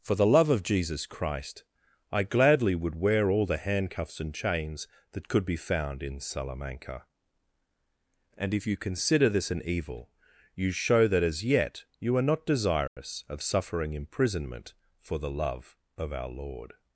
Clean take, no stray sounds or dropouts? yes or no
no